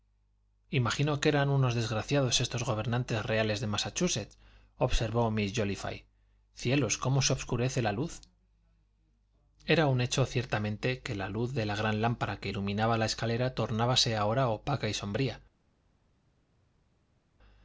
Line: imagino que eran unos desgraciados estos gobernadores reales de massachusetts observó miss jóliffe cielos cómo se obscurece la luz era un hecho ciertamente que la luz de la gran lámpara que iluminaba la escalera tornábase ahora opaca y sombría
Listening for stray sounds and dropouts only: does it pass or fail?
pass